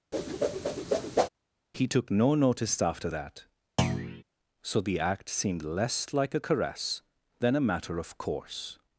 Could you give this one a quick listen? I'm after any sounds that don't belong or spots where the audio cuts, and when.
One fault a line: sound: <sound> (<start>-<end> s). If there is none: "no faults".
sound: whoosh (0.1-1.3 s)
sound: thud (3.8-4.2 s)